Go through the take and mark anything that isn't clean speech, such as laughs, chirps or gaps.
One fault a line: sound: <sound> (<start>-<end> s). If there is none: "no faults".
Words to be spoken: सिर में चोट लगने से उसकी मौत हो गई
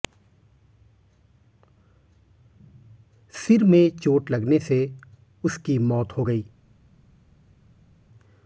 no faults